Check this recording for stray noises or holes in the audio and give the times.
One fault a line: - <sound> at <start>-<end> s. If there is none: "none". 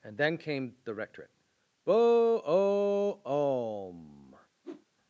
- whoosh at 4.6-4.9 s